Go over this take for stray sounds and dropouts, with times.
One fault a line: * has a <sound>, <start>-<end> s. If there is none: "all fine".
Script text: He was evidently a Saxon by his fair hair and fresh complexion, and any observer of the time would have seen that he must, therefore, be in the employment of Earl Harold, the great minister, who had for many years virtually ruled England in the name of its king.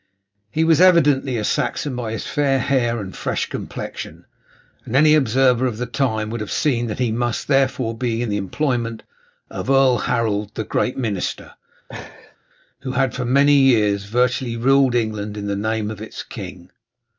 * has a laugh, 11.9-12.4 s